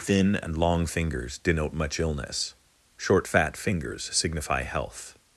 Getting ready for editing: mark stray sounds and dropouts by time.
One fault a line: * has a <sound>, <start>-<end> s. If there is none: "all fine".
all fine